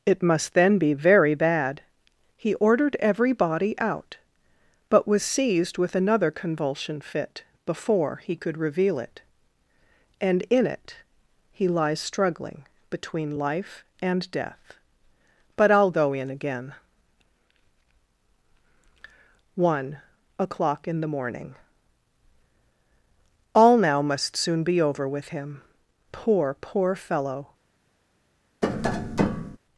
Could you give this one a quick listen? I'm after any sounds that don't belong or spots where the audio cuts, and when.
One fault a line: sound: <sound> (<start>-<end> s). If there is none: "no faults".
sound: tap (28.6-29.6 s)